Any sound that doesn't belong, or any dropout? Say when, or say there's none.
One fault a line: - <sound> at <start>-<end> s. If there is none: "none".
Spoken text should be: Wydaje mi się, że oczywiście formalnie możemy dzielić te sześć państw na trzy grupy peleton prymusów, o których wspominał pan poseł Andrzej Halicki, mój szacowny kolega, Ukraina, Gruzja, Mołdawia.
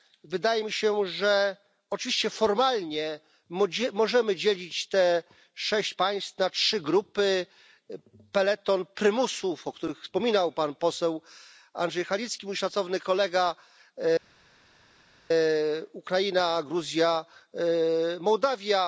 none